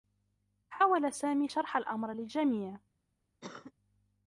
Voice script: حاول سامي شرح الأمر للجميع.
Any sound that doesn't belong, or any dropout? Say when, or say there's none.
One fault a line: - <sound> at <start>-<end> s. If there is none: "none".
- cough at 3.4-3.7 s